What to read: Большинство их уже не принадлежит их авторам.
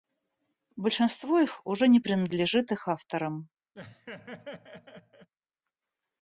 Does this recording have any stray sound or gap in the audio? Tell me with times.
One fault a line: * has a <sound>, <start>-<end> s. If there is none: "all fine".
* has a laugh, 3.7-5.3 s